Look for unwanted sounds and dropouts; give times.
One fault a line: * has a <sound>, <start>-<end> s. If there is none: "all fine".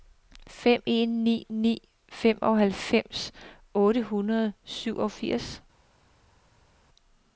all fine